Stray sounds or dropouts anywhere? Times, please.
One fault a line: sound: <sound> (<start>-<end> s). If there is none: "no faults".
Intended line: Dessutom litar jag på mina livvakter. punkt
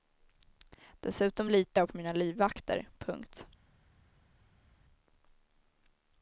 no faults